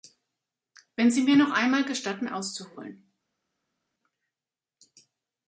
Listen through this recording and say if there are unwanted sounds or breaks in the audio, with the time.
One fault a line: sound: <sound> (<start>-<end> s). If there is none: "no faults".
no faults